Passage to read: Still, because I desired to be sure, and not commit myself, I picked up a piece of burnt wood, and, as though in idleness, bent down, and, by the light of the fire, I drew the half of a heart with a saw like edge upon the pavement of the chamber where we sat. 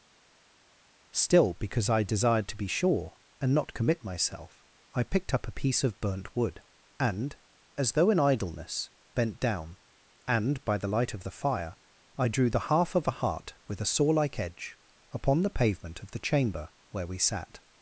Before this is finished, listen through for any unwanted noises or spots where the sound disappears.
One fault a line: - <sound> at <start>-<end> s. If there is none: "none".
none